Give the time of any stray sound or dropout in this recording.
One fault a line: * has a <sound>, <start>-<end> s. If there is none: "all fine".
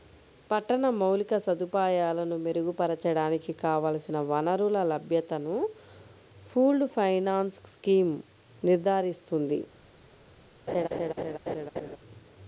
* has a laugh, 10.7-12.0 s